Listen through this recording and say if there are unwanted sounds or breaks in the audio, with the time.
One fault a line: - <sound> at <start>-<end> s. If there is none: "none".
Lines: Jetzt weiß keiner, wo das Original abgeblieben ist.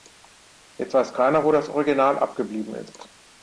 none